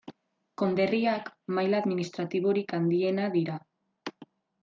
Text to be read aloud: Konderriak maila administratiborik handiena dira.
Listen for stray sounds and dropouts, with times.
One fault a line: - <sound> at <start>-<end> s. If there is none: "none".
none